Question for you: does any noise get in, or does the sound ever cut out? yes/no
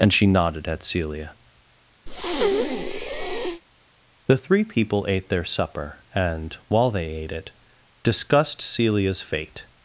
yes